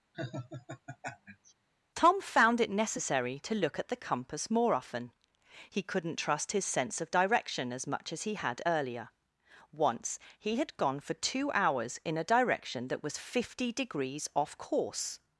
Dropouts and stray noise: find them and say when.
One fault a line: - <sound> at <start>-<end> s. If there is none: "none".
- laugh at 0.1-1.5 s